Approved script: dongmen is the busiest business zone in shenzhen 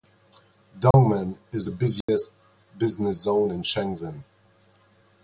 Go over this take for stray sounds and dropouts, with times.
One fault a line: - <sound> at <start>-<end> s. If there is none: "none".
- dropout at 0.9-0.9 s
- dropout at 2.0-2.1 s